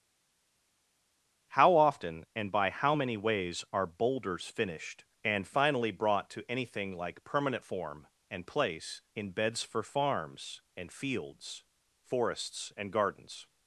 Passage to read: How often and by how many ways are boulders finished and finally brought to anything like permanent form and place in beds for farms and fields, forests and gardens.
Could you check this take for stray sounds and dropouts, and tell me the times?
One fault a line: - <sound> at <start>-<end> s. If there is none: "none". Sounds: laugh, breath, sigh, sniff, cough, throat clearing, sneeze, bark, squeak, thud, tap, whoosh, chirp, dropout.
none